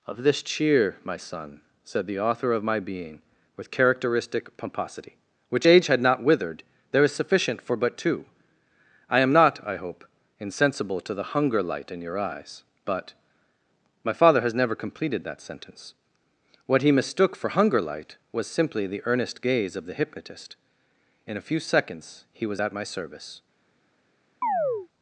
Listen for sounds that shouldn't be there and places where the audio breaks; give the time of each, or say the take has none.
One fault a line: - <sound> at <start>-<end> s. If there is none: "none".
- chirp at 24.4-24.9 s